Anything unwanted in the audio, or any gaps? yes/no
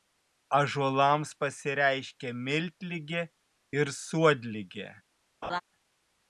yes